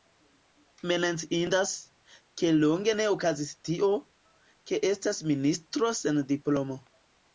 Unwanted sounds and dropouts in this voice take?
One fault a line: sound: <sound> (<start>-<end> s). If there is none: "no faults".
no faults